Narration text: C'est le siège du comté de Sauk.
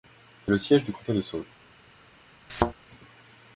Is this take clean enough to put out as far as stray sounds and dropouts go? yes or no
no